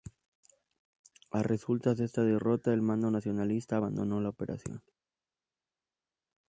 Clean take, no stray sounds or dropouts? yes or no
yes